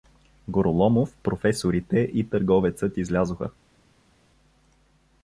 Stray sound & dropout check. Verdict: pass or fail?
pass